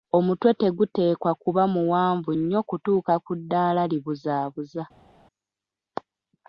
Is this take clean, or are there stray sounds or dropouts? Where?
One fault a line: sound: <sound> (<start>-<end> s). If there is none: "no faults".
no faults